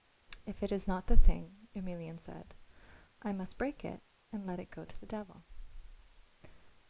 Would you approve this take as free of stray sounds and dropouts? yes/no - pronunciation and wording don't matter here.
yes